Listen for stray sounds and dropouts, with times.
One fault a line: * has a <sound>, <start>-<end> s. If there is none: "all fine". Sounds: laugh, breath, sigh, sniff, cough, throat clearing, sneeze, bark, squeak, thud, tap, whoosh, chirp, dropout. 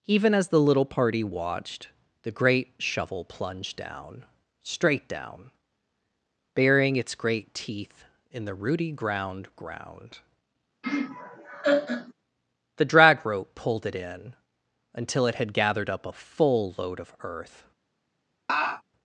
* has a laugh, 10.8-12.1 s
* has a laugh, 18.5-18.8 s